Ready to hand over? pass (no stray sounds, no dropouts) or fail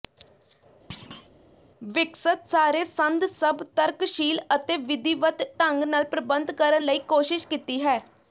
fail